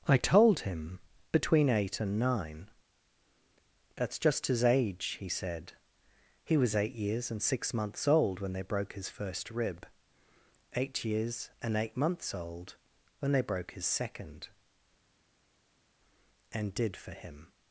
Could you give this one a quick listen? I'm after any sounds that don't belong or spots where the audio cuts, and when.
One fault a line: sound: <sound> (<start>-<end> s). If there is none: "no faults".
no faults